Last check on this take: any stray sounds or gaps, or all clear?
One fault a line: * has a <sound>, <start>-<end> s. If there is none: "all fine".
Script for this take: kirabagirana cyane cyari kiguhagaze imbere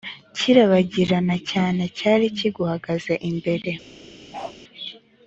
* has a bark, 4.3-4.6 s